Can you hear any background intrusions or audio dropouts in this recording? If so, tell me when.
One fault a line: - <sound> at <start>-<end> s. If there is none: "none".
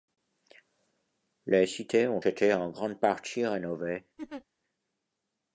- laugh at 4.2-4.4 s